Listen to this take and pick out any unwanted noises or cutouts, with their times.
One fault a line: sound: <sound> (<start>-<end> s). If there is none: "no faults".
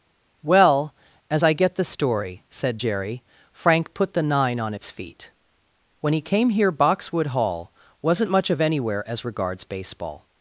no faults